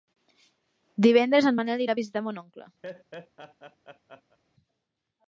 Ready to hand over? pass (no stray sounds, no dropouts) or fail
fail